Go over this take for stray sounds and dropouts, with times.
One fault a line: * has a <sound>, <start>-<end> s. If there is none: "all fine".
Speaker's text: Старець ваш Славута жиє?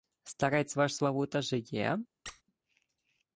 * has a squeak, 2.3-2.4 s